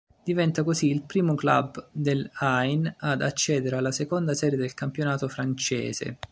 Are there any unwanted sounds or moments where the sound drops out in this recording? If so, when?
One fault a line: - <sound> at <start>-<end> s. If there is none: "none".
none